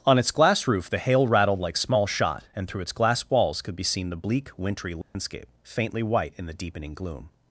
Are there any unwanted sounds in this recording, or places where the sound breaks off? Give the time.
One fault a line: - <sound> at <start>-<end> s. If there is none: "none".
- dropout at 5.0-5.2 s